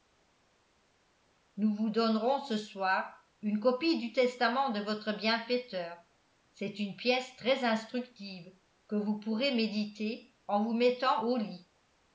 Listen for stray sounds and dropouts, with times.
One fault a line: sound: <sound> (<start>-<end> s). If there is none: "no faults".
no faults